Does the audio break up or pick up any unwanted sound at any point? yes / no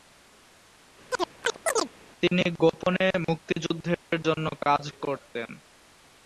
yes